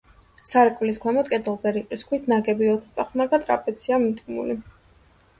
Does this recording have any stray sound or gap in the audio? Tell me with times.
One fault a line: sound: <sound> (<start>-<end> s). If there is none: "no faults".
no faults